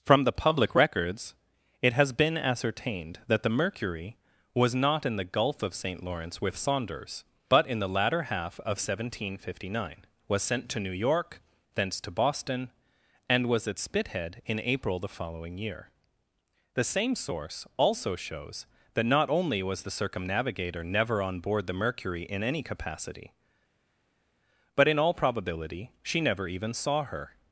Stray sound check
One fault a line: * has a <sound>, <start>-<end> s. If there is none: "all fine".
all fine